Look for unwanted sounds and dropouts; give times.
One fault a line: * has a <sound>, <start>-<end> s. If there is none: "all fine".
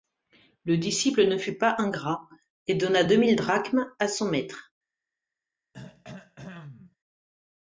* has a throat clearing, 5.7-7.0 s